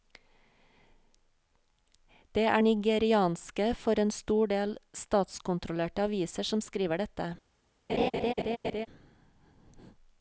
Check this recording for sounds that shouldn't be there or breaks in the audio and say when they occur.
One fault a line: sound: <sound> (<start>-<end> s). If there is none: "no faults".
sound: laugh (7.9-8.9 s)